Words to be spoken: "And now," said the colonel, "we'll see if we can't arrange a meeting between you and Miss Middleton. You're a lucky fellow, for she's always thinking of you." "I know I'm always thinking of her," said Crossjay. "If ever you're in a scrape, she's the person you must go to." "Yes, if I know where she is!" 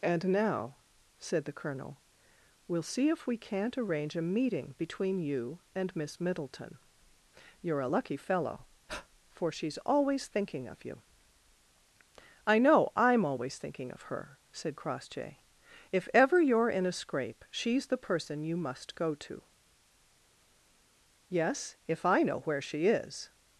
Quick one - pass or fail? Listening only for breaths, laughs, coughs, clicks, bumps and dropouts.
fail